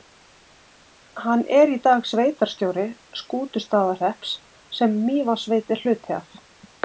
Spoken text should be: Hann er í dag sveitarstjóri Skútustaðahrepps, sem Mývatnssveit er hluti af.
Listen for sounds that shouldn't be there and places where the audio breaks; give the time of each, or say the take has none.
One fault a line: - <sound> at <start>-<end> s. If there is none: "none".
none